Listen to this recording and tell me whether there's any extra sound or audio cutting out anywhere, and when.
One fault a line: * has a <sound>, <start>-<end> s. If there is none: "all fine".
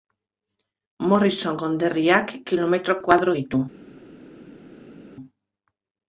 all fine